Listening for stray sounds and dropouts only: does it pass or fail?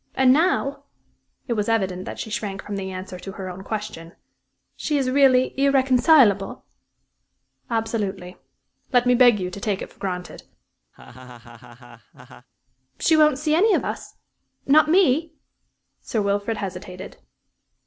fail